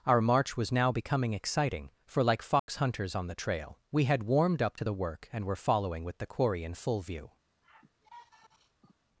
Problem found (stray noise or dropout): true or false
true